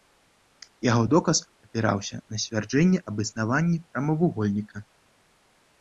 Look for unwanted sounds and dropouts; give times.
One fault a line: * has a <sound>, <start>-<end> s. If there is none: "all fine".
all fine